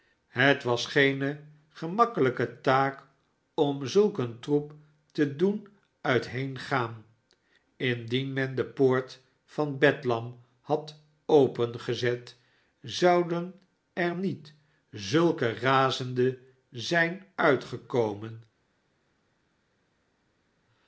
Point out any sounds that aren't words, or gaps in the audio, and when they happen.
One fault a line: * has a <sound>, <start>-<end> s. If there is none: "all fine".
all fine